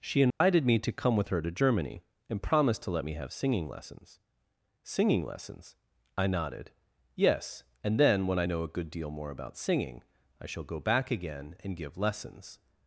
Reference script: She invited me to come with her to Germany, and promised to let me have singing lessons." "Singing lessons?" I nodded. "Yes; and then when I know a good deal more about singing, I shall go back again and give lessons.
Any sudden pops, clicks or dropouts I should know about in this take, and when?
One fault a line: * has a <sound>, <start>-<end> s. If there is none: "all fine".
* has a dropout, 0.3-0.4 s